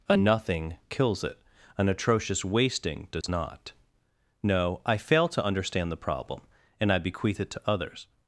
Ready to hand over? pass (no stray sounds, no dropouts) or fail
fail